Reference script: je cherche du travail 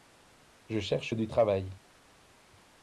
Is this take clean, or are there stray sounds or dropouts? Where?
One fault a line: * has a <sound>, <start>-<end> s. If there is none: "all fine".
all fine